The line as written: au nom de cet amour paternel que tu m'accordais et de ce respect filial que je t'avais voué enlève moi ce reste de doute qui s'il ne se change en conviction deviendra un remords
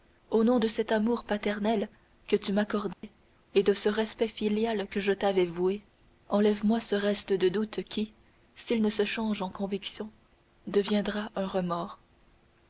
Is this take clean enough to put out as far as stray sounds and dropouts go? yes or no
no